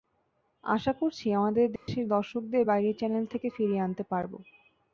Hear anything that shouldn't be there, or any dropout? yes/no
yes